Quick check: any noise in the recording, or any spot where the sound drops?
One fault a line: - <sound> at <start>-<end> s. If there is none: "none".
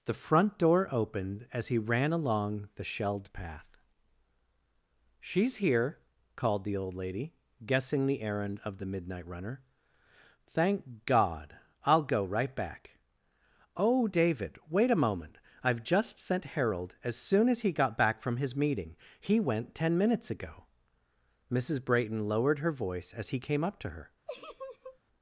- laugh at 24.3-25.0 s